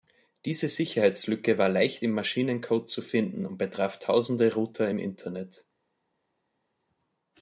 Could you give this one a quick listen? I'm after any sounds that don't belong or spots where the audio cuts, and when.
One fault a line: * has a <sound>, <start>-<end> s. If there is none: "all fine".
all fine